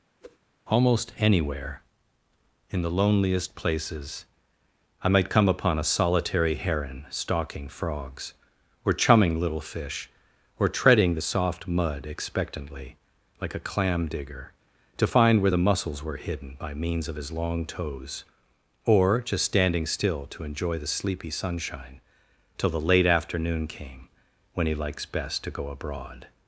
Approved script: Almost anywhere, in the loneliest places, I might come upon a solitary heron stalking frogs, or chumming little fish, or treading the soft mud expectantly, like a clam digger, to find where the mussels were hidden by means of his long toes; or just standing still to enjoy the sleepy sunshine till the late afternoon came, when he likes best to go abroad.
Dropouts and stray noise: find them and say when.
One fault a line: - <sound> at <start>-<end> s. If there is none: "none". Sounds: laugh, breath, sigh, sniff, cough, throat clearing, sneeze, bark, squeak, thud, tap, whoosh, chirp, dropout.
- whoosh at 0.2-0.4 s